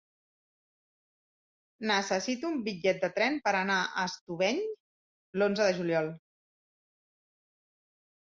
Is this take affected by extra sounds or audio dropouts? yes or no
no